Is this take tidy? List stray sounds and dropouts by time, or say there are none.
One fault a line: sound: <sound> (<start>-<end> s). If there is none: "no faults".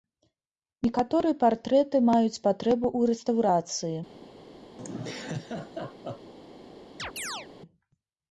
sound: laugh (4.8-6.3 s)
sound: chirp (7.0-7.5 s)